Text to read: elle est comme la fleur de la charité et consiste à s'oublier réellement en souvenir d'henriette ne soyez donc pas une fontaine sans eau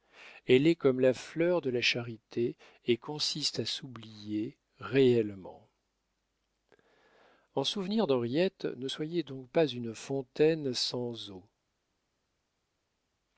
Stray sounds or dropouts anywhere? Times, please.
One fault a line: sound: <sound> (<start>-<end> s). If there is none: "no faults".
no faults